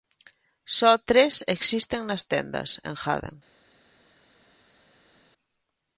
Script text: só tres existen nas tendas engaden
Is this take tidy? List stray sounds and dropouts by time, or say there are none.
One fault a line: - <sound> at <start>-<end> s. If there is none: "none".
none